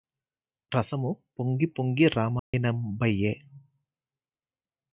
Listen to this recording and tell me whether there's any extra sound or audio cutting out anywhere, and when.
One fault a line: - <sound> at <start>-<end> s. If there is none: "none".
- dropout at 2.4-2.5 s